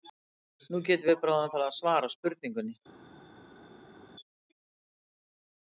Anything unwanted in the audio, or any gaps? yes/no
no